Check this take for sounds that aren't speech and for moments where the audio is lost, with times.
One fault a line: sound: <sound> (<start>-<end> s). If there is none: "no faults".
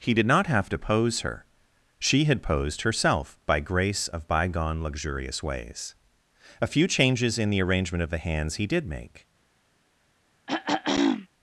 sound: throat clearing (10.5-11.3 s)